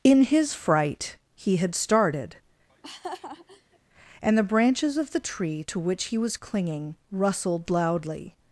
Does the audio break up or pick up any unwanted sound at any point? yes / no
yes